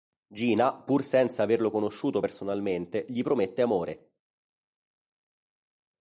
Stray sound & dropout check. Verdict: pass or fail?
pass